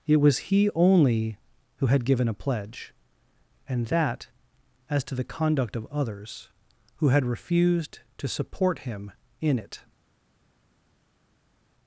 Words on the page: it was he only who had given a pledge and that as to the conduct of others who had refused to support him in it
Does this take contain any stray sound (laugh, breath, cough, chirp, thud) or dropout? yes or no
no